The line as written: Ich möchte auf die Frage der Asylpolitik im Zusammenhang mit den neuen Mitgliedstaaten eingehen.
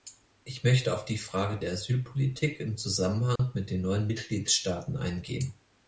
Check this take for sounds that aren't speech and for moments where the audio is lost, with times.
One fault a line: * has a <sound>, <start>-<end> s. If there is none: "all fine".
* has a dropout, 3.4-3.4 s